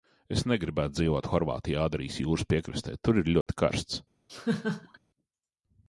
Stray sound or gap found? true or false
true